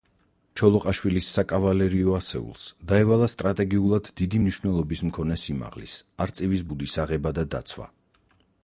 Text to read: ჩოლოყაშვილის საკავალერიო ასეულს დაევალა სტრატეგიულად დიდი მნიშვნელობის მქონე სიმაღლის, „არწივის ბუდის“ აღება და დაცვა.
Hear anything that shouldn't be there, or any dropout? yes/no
no